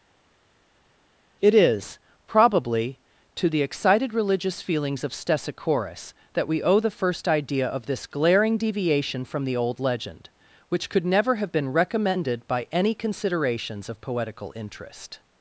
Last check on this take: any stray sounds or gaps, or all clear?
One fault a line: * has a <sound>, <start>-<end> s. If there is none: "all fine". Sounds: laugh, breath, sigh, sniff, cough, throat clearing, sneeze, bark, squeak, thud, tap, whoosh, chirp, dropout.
all fine